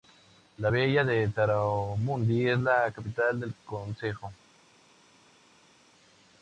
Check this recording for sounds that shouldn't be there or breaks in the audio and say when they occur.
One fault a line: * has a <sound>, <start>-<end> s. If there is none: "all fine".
all fine